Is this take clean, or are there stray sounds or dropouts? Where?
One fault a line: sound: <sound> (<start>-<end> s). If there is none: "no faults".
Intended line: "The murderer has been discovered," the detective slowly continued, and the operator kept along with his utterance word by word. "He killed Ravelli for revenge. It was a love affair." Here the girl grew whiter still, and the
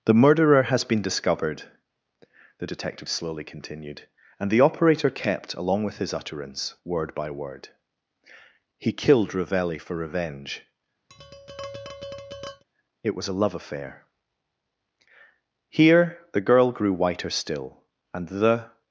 sound: tap (11.1-12.6 s)